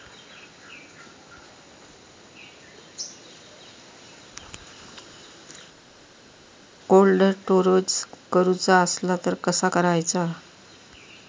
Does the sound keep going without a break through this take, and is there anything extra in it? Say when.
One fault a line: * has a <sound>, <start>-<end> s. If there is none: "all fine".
all fine